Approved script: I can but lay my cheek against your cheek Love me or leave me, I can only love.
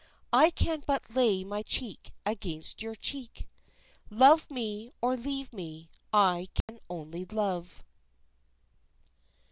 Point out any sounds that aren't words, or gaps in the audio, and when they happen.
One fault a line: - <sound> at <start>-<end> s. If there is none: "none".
- dropout at 6.6-6.7 s